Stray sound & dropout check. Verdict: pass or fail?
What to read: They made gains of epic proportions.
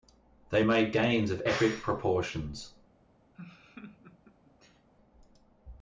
fail